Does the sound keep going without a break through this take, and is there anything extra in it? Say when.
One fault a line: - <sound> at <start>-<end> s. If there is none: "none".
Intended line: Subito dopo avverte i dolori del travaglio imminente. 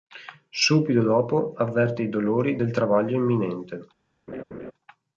- laugh at 4.3-4.7 s